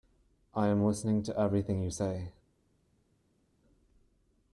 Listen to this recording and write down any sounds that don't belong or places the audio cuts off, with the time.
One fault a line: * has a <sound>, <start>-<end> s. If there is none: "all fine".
all fine